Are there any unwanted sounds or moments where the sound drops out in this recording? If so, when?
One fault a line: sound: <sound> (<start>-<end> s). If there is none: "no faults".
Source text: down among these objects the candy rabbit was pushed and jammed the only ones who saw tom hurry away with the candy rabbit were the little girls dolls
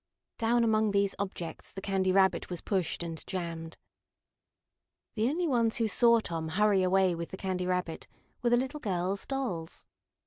no faults